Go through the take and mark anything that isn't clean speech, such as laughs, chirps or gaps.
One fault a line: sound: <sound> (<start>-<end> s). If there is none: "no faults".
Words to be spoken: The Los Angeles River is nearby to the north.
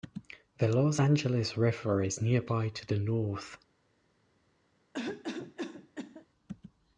sound: cough (4.9-6.3 s)